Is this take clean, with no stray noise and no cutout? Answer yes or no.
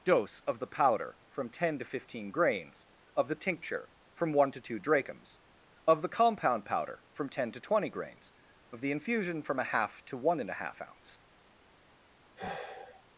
no